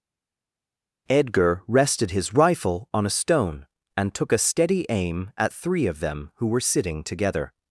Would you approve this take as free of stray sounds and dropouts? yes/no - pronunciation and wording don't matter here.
yes